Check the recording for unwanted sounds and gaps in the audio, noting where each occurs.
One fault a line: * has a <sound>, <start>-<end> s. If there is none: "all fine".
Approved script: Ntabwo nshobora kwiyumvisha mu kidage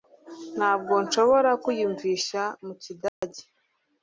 * has a dropout, 3.1-3.2 s